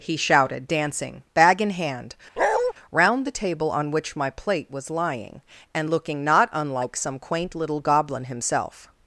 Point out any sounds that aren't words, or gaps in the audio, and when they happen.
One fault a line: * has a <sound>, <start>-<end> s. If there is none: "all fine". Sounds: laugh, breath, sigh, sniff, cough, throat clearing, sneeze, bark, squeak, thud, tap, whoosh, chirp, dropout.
* has a bark, 2.4-2.7 s